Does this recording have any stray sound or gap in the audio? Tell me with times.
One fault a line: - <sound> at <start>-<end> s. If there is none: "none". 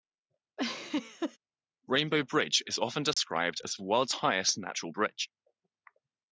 - laugh at 0.6-1.4 s
- dropout at 3.1-3.2 s